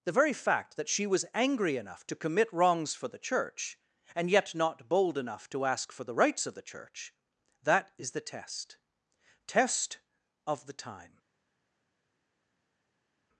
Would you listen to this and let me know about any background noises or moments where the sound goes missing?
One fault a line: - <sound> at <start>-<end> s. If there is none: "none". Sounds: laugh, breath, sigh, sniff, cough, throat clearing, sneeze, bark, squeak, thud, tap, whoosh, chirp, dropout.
none